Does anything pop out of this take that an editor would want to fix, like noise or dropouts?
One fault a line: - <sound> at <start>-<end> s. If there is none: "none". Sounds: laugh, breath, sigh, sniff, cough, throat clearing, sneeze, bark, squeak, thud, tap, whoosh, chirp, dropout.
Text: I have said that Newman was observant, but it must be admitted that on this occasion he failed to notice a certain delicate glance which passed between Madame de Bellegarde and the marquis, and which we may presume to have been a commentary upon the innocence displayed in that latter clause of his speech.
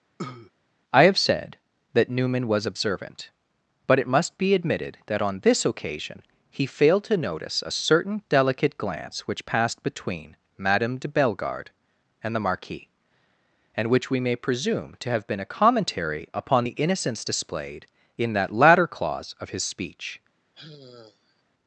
- cough at 0.2-0.5 s
- sigh at 20.5-21.4 s